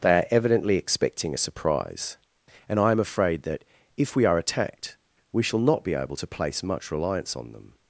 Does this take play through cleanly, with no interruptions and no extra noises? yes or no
yes